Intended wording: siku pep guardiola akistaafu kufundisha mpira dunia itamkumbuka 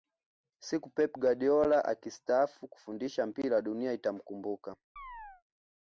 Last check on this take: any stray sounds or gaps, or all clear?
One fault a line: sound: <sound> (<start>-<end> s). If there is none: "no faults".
sound: chirp (5.0-5.4 s)